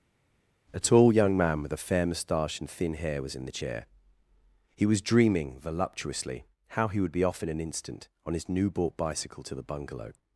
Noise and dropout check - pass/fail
pass